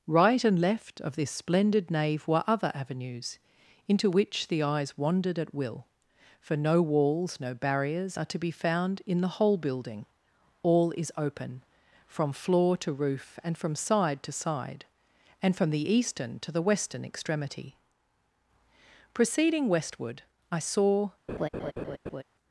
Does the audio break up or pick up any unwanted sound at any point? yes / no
yes